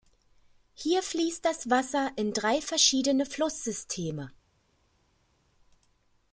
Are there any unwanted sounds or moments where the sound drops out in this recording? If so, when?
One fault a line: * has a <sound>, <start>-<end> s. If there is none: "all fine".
all fine